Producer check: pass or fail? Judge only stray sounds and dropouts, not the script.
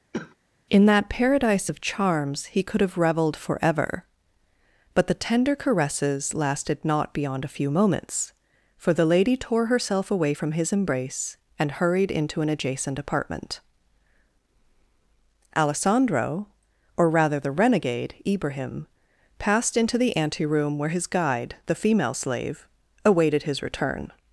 fail